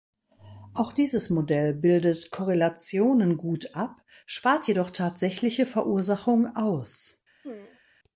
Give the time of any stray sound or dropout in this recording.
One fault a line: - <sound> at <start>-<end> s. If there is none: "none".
- throat clearing at 7.4-7.8 s